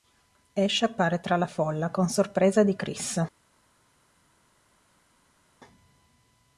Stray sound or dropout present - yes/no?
no